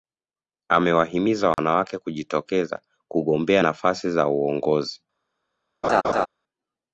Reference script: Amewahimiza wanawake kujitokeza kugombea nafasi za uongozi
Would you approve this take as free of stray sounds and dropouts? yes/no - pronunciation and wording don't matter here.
no